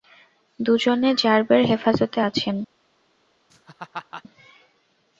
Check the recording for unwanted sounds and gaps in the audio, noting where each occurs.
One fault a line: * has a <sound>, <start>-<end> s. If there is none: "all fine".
* has a laugh, 3.5-4.2 s